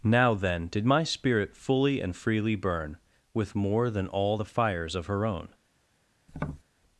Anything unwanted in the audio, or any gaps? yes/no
yes